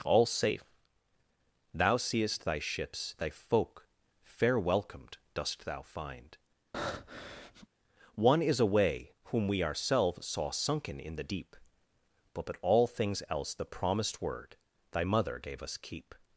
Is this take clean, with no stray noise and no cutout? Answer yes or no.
no